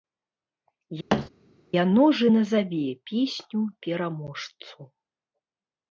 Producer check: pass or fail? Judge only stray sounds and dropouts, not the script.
fail